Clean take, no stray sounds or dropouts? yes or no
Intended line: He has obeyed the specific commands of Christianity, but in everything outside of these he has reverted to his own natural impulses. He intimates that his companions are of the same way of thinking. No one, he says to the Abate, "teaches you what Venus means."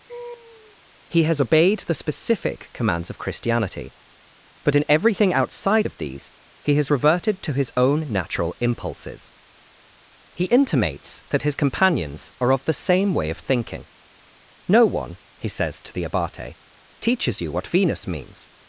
no